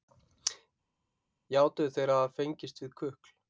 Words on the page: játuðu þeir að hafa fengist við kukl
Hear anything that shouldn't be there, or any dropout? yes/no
no